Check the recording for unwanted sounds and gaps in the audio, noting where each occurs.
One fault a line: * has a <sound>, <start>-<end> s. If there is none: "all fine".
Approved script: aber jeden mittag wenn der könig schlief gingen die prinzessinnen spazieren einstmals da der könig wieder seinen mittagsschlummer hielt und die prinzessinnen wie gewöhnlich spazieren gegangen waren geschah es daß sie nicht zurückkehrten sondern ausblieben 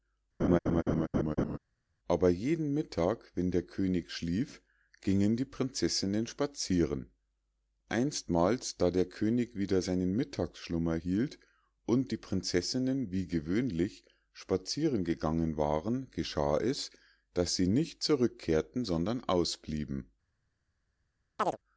* has a laugh, 0.4-1.6 s
* has a chirp, 21.4-21.6 s